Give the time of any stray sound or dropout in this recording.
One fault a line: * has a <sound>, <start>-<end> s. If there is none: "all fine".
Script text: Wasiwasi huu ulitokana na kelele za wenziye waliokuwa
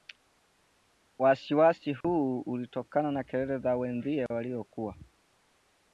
* has a dropout, 2.0-2.0 s